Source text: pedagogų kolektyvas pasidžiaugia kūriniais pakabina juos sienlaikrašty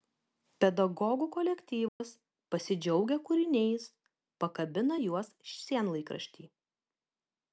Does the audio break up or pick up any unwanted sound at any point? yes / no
yes